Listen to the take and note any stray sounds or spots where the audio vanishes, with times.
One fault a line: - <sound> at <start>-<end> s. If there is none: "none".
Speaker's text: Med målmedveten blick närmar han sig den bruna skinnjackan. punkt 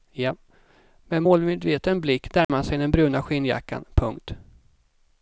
- dropout at 2.4-2.5 s